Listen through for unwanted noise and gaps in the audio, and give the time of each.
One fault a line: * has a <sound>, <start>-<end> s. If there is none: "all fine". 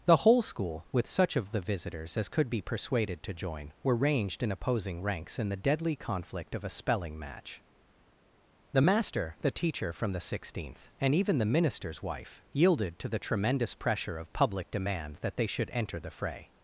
all fine